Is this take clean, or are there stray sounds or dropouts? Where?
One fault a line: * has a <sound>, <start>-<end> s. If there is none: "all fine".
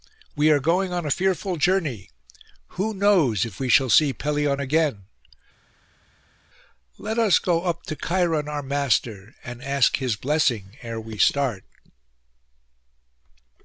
all fine